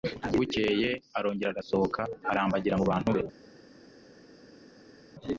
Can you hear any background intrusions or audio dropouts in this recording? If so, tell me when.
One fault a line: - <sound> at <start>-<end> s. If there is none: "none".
none